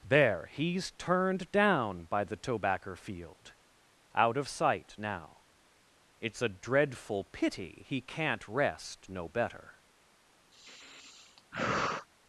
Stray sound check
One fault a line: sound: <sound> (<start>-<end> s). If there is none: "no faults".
sound: sigh (10.5-12.1 s)